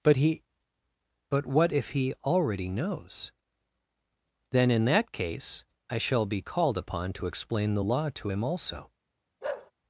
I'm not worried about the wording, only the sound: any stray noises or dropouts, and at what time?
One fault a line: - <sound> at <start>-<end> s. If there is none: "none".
- bark at 9.4-9.7 s